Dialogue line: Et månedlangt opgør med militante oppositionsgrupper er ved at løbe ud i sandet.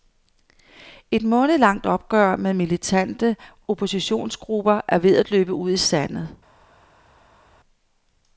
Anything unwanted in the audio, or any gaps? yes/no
no